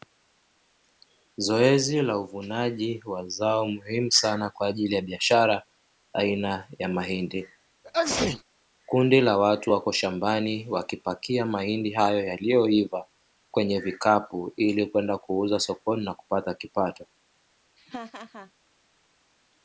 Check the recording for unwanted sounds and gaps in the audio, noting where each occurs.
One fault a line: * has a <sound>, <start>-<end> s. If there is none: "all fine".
* has a sneeze, 7.8-8.4 s
* has a laugh, 17.8-18.5 s